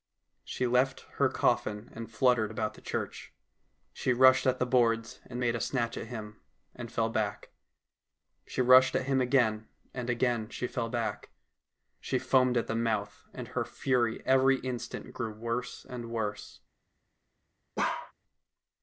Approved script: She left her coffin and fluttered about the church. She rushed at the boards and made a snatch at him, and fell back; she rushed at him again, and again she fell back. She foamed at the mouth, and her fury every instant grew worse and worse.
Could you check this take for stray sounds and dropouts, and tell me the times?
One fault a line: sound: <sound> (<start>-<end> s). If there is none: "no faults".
sound: bark (17.8-18.1 s)